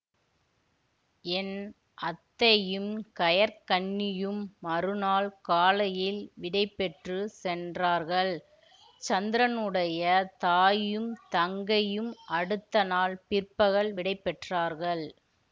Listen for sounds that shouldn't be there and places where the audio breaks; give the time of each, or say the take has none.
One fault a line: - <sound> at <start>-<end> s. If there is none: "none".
none